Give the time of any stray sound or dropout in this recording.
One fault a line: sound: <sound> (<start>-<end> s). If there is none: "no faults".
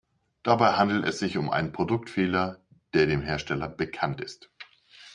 no faults